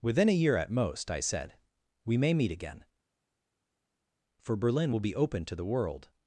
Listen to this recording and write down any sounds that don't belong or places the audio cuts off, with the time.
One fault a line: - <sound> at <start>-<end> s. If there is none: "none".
none